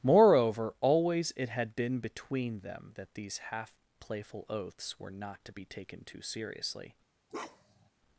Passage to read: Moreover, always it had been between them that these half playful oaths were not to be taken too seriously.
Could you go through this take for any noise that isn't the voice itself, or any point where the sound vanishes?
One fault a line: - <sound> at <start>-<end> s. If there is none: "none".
- bark at 7.3-7.9 s